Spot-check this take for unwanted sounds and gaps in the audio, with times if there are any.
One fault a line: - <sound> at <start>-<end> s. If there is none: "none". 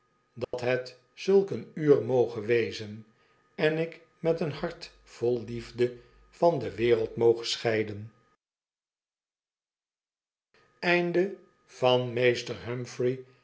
- dropout at 0.4-0.5 s